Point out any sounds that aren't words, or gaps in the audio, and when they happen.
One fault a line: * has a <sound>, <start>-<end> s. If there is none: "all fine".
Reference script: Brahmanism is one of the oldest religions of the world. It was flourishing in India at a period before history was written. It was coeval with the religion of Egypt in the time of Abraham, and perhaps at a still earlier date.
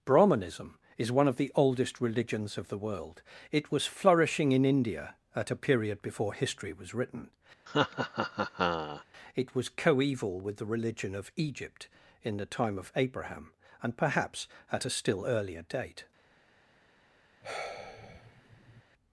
* has a laugh, 7.7-9.0 s
* has a sigh, 17.4-18.8 s